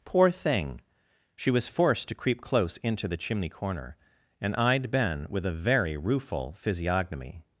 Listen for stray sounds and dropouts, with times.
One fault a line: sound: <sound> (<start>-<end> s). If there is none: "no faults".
no faults